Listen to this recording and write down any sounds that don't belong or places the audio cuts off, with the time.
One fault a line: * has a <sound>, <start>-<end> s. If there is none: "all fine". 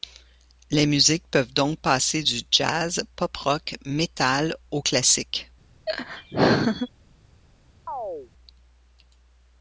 * has a laugh, 5.9-6.9 s
* has a chirp, 7.9-8.3 s